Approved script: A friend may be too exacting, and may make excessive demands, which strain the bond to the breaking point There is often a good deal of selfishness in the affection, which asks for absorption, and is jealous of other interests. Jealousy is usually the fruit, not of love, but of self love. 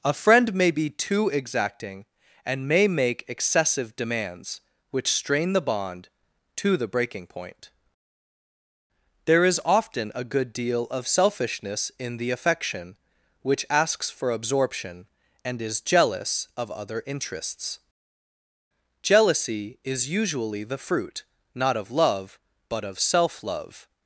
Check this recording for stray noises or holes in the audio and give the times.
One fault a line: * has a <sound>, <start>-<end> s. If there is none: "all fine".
all fine